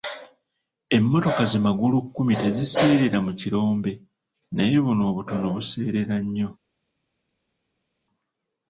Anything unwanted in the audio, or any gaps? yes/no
no